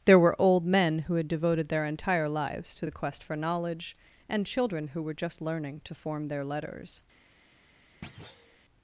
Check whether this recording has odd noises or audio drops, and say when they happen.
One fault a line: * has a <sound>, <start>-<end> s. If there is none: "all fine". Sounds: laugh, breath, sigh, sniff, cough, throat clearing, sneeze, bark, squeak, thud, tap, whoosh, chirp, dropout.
* has a thud, 8.0-8.6 s